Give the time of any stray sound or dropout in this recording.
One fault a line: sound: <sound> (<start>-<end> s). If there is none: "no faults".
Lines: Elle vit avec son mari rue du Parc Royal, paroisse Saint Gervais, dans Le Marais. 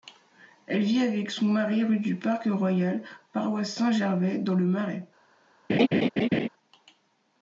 sound: laugh (5.7-6.5 s)